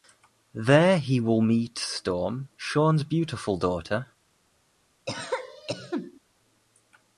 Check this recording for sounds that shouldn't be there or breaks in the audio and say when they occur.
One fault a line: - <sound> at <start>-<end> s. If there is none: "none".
- cough at 5.1-6.2 s